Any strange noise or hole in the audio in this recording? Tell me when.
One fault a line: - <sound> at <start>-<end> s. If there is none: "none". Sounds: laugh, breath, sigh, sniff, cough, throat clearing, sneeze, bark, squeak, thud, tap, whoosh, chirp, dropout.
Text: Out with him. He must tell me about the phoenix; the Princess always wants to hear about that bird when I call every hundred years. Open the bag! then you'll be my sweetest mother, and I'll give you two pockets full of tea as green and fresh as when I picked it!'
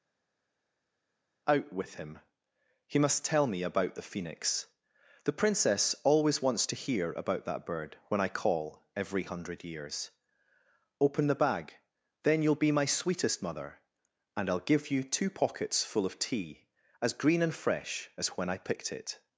none